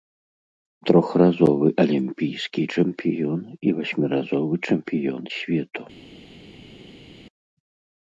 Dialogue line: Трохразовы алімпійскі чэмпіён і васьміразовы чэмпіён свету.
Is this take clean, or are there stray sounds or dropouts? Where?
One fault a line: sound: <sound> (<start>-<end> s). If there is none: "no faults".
no faults